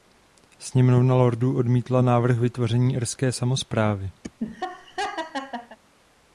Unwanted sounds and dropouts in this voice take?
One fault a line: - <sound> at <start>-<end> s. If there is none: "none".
- laugh at 4.2-5.8 s